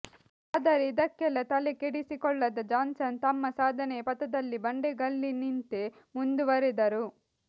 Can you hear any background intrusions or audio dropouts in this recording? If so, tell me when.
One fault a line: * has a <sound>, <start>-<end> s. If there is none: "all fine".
all fine